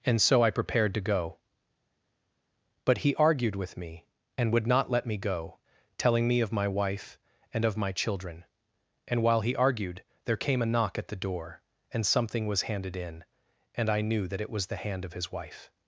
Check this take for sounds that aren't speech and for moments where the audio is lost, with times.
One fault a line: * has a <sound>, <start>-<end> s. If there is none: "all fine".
all fine